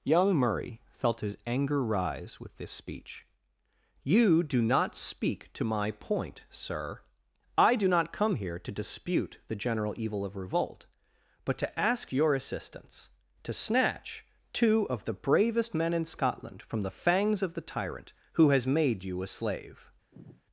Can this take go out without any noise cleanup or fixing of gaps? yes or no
no